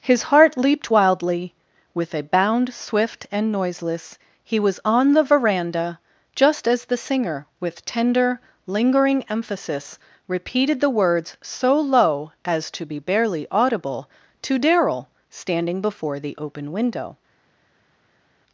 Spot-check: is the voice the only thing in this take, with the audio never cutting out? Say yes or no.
yes